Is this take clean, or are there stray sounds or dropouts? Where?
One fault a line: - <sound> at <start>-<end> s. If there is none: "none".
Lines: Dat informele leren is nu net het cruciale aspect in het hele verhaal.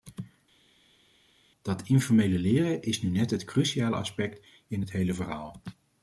none